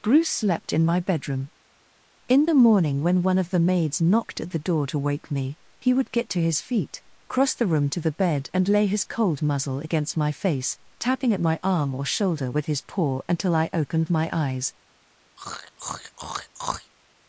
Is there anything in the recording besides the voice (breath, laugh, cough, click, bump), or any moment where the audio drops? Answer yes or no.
yes